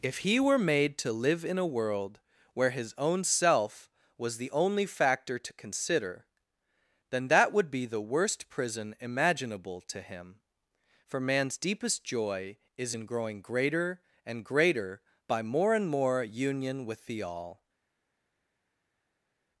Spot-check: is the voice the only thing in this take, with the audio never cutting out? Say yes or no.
yes